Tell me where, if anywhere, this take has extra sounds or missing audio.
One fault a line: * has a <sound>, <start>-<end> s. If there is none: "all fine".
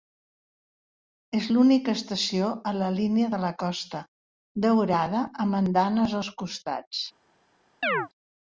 * has a chirp, 7.8-8.1 s